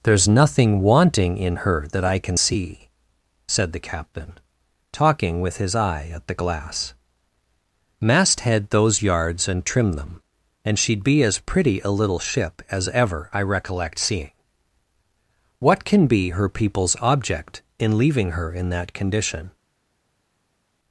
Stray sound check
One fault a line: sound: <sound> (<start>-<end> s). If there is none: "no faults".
no faults